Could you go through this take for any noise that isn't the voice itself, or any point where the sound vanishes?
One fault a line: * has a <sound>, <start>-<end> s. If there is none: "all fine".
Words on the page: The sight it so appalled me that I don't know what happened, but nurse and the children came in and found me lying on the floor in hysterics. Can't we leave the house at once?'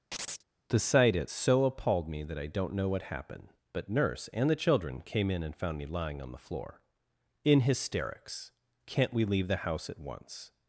* has a chirp, 0.1-0.4 s